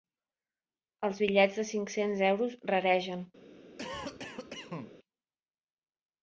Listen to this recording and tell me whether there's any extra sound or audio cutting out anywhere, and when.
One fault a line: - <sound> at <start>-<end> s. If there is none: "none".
- cough at 3.8-4.9 s